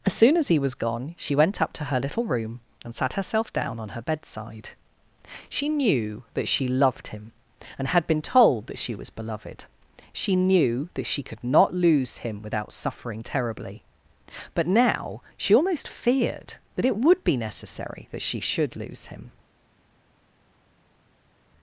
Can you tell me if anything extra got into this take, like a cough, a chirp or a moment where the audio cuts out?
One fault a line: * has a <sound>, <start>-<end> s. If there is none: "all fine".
all fine